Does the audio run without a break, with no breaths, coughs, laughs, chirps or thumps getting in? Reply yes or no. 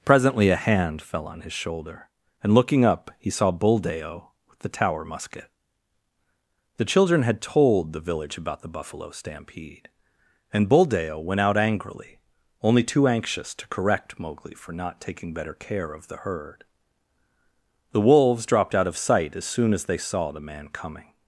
yes